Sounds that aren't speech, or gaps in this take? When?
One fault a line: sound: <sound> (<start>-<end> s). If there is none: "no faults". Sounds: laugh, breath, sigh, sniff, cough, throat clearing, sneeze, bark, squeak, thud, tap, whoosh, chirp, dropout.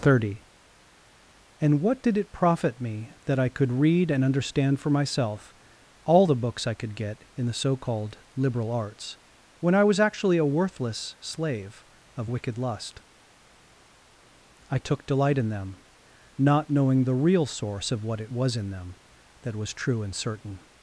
no faults